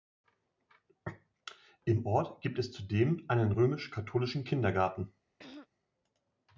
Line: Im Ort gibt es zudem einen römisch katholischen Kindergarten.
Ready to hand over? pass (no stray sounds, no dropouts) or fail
fail